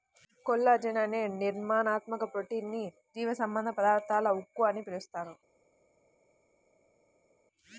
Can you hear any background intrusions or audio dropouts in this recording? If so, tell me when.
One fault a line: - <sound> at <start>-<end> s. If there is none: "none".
none